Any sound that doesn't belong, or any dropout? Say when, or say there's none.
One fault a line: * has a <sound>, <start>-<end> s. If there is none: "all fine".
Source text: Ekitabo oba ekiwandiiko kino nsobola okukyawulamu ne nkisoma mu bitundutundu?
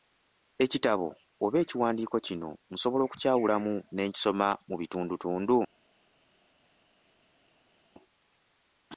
all fine